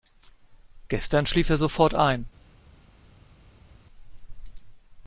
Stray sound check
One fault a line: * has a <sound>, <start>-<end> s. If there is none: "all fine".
all fine